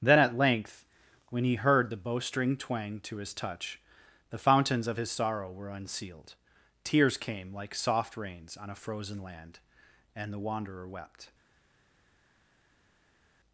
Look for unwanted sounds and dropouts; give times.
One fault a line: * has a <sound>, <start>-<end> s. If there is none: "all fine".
all fine